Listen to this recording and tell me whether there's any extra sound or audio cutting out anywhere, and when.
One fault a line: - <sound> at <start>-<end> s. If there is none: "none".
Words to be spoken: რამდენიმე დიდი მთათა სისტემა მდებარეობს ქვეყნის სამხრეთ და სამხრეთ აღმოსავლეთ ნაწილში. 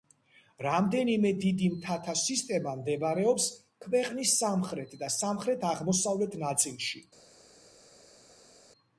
none